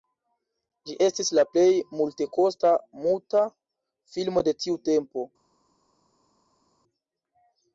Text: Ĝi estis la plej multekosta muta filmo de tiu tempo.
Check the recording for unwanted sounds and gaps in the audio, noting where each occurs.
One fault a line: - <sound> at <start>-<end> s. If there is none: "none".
none